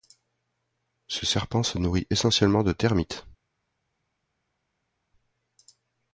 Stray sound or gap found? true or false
false